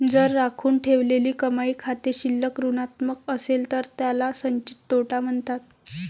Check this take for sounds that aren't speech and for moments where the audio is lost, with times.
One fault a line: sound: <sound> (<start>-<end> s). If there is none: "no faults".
no faults